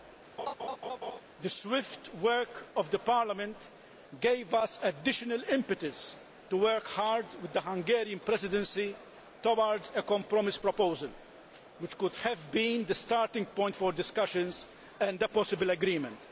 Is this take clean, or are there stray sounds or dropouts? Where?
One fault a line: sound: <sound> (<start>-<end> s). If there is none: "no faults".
sound: laugh (0.4-1.2 s)